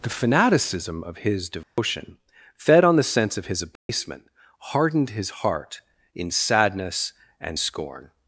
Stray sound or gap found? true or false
true